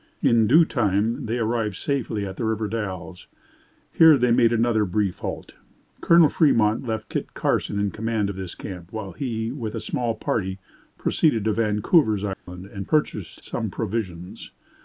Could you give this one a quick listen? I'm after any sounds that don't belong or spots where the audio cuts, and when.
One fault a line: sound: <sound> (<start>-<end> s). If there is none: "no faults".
sound: dropout (12.3-12.5 s)